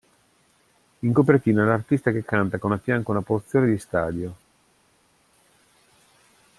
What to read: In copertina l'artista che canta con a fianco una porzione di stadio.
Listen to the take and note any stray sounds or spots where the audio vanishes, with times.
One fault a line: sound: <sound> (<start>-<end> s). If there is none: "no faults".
no faults